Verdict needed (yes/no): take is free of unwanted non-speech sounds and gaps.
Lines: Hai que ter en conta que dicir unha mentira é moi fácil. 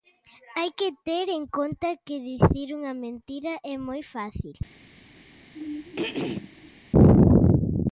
no